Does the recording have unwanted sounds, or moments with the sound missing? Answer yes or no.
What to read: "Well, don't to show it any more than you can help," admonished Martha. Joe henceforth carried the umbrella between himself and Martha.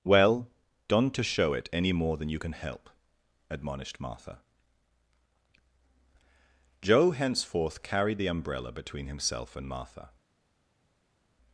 no